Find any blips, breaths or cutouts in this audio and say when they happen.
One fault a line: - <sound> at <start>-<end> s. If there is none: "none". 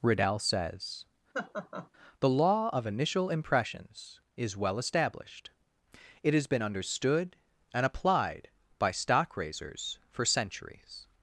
- laugh at 1.3-1.9 s